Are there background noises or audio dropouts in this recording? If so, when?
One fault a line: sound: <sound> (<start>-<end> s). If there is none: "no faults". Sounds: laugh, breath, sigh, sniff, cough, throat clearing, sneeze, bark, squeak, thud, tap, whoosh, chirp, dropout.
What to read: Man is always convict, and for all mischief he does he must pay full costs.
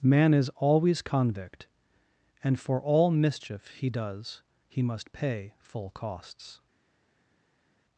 no faults